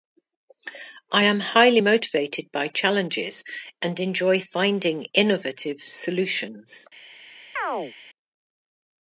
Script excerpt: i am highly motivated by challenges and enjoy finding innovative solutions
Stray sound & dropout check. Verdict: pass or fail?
fail